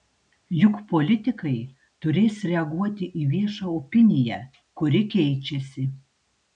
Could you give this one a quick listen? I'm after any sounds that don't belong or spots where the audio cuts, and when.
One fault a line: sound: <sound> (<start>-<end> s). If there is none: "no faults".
no faults